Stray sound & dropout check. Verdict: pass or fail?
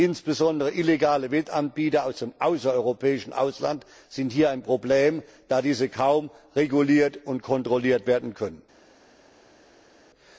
pass